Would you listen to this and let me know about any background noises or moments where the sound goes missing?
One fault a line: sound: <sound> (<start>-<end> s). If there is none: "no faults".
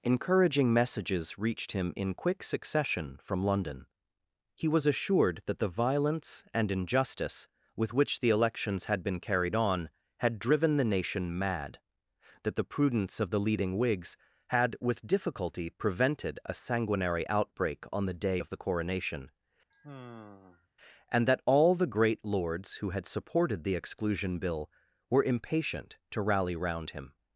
sound: sigh (19.7-20.7 s)